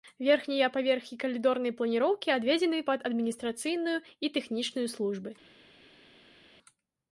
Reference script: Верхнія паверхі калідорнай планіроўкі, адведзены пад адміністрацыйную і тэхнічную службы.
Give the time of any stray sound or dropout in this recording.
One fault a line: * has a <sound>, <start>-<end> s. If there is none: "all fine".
all fine